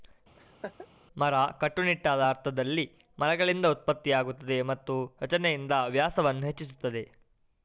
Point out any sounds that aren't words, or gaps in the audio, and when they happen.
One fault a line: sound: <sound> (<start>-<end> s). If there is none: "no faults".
sound: laugh (0.4-0.9 s)